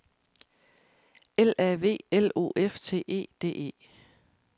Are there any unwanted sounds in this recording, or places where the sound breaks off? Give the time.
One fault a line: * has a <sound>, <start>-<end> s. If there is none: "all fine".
all fine